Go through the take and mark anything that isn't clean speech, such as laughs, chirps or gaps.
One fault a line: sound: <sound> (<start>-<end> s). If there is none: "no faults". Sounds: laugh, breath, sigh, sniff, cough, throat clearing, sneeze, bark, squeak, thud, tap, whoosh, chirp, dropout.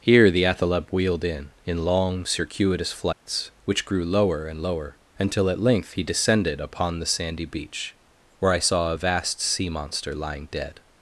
sound: dropout (3.1-3.3 s)